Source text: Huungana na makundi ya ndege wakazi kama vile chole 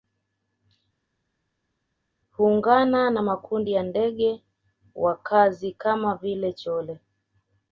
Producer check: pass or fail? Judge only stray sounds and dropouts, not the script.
pass